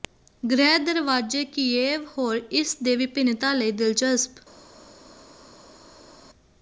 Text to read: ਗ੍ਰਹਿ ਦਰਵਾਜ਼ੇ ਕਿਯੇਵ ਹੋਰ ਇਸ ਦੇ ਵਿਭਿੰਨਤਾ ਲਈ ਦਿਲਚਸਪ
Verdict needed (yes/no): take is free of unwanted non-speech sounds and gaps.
yes